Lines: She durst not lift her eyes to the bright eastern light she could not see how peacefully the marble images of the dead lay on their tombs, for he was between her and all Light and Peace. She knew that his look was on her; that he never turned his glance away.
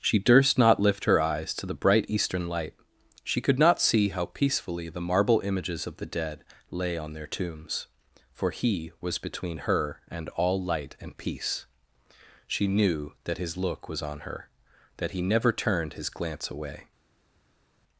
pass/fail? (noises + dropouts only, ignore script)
pass